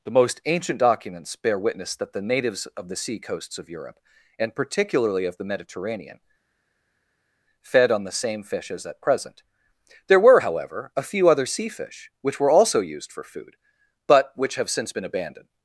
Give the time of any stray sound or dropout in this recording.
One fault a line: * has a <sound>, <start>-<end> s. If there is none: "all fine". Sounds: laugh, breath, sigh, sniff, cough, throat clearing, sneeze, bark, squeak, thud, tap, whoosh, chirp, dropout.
all fine